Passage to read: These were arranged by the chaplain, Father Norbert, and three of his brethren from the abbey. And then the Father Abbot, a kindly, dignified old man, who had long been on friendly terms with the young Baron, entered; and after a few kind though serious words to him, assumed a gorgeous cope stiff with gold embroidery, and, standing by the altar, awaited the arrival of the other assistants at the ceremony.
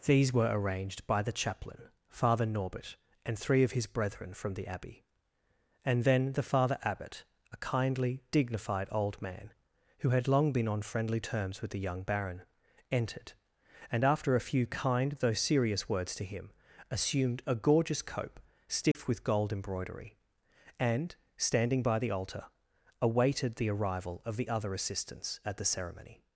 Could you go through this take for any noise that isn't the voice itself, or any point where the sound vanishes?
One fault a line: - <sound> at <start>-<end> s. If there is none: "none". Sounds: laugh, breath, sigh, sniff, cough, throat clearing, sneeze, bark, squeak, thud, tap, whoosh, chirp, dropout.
- dropout at 18.9-19.0 s